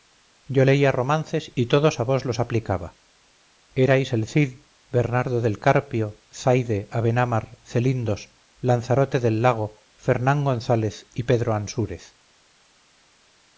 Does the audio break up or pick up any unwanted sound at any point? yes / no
no